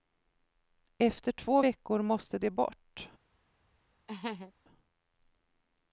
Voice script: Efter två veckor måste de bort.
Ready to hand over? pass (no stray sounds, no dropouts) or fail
fail